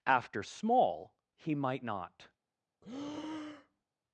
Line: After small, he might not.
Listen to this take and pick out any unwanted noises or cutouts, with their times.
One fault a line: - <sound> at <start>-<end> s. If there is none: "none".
- breath at 2.8-3.8 s